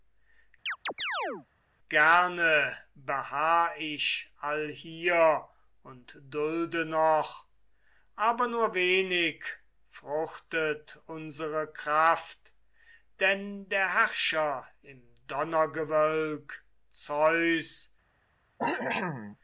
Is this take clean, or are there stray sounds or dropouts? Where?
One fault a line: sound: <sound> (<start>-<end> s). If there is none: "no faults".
sound: chirp (0.7-1.5 s)
sound: cough (18.6-19.4 s)